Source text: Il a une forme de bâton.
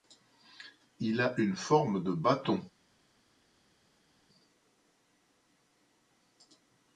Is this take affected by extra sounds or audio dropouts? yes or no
no